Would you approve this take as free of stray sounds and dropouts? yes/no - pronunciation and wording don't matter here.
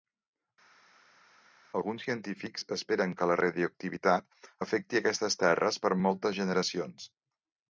yes